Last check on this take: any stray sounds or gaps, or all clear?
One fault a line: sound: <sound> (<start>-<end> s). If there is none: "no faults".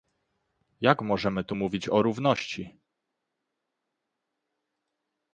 no faults